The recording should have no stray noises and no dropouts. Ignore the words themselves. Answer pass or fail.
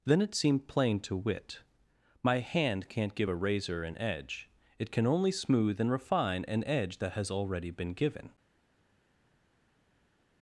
pass